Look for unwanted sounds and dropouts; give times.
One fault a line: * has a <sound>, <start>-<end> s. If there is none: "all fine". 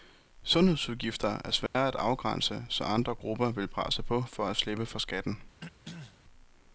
* has a dropout, 1.7-1.7 s
* has a throat clearing, 5.6-6.2 s